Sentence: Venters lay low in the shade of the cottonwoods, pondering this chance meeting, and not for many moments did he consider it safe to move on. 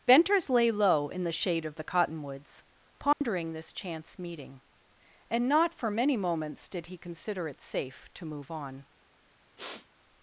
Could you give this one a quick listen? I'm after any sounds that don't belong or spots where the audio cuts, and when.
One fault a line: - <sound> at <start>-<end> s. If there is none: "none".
- dropout at 3.1-3.2 s
- sniff at 9.6-9.9 s